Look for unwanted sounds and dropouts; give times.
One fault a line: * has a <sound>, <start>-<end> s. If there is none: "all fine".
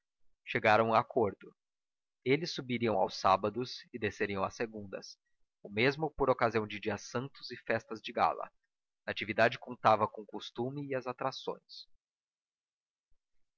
all fine